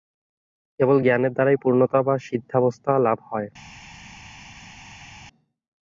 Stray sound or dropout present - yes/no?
no